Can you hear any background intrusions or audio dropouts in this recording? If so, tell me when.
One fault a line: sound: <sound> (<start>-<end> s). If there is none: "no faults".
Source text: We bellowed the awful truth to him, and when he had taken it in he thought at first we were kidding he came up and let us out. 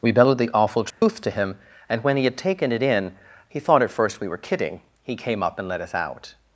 sound: dropout (0.9-1.0 s)